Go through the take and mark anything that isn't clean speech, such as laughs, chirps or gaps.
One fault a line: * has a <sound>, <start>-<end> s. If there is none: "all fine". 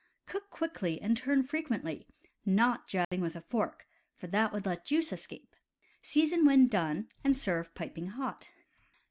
* has a dropout, 3.0-3.1 s